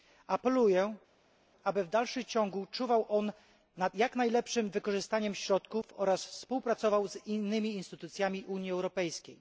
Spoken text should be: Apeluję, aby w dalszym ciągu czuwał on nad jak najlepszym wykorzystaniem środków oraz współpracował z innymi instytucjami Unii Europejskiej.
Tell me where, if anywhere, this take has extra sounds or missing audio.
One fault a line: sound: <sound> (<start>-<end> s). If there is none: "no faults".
no faults